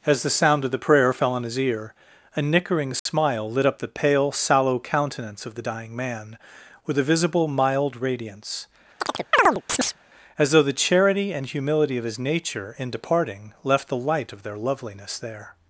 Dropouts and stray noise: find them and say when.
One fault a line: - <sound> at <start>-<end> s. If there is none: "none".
- dropout at 3.0-3.1 s
- chirp at 9.0-10.0 s